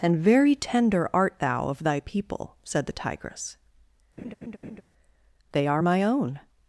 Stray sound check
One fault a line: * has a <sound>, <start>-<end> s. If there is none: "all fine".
* has a laugh, 4.2-4.8 s